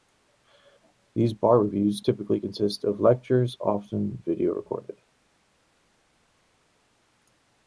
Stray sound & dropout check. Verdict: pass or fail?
pass